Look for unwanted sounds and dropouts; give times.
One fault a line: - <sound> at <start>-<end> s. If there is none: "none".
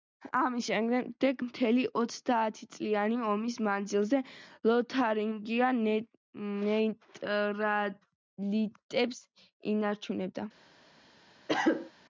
- cough at 11.5-11.9 s